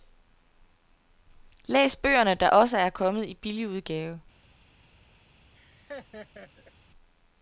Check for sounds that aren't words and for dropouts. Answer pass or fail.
fail